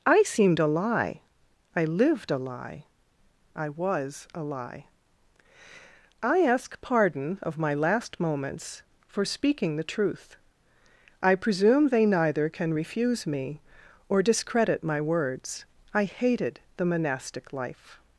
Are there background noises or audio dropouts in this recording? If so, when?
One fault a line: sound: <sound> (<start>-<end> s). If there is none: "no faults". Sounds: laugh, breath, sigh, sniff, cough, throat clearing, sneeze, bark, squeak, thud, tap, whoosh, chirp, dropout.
no faults